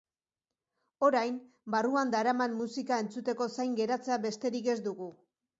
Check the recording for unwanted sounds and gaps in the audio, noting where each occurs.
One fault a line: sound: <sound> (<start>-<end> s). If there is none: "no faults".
no faults